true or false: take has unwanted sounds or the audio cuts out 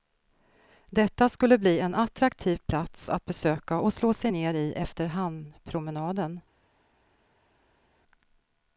false